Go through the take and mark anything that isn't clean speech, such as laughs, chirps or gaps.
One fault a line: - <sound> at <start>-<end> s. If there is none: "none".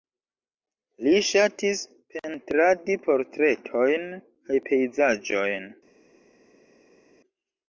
none